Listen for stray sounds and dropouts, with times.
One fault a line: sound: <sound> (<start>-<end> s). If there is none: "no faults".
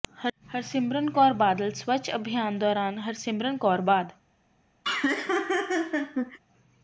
sound: laugh (4.8-6.4 s)